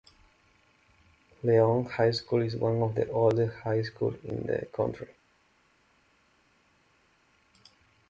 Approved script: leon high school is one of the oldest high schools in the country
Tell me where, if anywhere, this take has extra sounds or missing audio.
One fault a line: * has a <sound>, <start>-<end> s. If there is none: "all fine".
all fine